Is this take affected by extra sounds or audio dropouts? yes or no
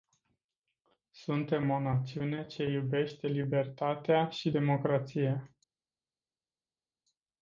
no